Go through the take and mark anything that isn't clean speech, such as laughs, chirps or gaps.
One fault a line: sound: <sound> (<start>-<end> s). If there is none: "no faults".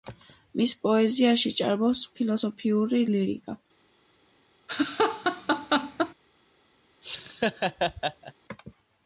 sound: laugh (4.7-6.1 s)
sound: laugh (7.0-8.3 s)